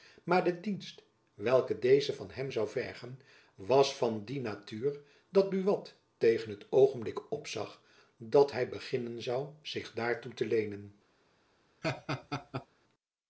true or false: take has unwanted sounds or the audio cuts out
true